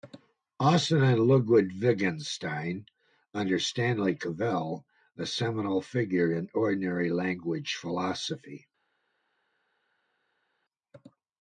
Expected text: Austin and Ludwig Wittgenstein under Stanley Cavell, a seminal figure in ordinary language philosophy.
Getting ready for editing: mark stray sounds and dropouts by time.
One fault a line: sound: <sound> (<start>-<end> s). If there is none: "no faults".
no faults